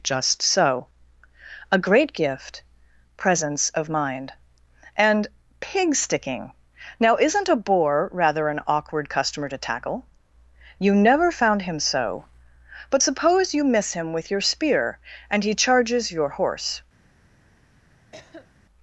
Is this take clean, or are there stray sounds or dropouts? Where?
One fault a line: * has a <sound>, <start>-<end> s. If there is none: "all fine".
* has a cough, 18.1-18.5 s